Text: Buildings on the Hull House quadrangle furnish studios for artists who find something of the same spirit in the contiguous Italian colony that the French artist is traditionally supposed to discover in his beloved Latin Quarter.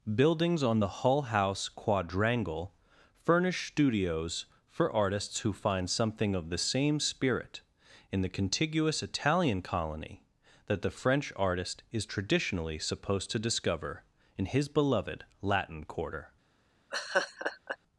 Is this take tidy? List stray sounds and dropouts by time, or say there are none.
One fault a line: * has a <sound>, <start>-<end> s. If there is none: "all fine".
* has a laugh, 16.9-17.8 s